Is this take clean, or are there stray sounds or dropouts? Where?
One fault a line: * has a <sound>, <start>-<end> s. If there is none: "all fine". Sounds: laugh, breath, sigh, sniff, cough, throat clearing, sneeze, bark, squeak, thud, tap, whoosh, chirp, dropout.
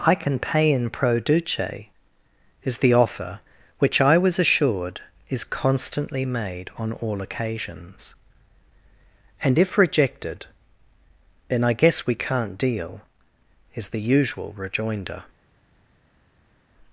all fine